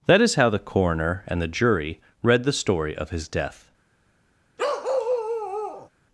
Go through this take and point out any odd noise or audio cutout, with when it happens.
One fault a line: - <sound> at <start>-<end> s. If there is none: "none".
- bark at 4.6-5.9 s